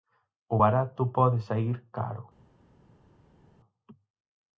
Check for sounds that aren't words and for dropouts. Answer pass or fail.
pass